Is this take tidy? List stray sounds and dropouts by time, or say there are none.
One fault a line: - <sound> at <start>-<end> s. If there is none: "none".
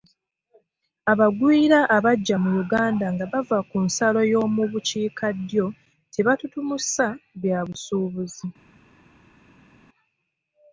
none